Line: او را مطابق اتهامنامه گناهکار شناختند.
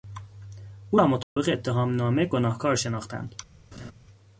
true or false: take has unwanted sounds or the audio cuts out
true